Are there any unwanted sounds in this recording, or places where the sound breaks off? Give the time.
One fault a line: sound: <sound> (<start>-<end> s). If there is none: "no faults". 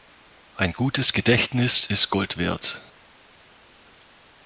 no faults